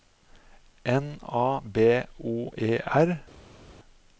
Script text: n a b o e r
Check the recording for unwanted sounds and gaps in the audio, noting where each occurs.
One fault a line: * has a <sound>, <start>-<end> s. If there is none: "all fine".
all fine